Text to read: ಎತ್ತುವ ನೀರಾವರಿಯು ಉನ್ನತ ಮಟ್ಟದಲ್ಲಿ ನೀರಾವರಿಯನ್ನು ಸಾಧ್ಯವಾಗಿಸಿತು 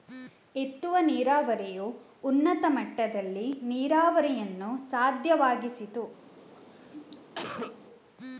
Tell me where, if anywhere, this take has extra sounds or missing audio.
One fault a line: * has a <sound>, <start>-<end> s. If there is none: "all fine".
* has a cough, 6.5-7.8 s